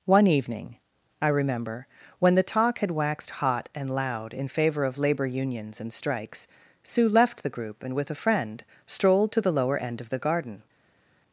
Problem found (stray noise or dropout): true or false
false